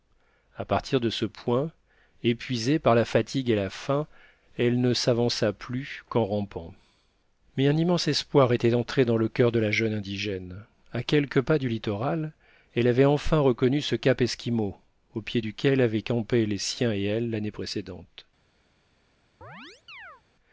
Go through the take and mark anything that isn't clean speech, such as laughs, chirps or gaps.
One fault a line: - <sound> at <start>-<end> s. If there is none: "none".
- chirp at 19.4-20.2 s